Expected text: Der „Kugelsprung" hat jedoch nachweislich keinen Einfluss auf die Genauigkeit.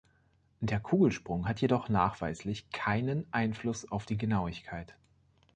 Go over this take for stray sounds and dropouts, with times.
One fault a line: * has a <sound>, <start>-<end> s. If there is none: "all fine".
all fine